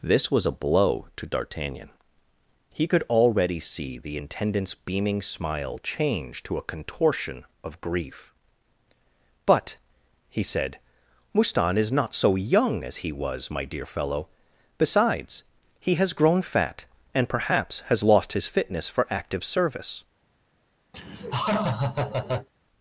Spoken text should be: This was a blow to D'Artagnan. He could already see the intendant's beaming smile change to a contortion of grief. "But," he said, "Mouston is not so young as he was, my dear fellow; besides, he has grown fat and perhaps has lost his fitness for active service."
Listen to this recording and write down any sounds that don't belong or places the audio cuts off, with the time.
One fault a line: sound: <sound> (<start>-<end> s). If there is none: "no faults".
sound: laugh (20.9-22.5 s)